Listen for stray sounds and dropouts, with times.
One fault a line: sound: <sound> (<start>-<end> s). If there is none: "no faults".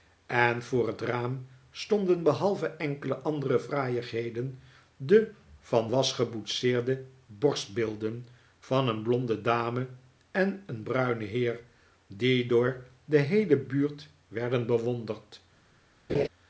sound: laugh (16.1-16.3 s)